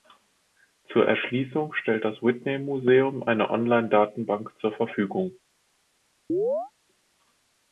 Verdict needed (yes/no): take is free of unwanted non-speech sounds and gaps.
no